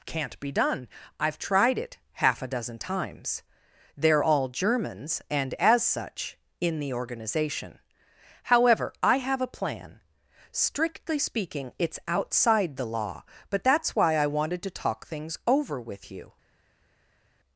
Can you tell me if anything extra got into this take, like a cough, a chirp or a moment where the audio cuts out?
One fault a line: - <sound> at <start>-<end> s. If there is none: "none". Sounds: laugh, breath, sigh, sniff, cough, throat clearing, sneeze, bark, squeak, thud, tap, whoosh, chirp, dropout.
none